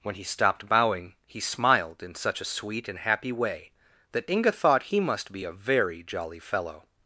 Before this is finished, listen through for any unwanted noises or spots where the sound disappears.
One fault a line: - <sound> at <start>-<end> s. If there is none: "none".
none